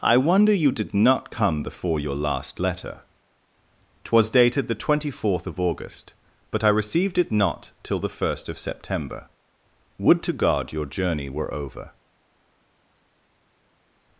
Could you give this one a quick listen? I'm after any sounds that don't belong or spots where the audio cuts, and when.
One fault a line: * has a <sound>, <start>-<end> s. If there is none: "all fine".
all fine